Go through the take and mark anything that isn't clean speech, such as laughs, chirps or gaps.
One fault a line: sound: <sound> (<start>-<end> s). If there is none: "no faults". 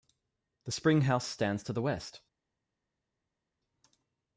no faults